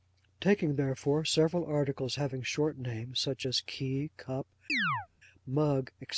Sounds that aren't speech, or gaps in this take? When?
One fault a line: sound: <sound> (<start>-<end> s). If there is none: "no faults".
sound: chirp (4.7-5.1 s)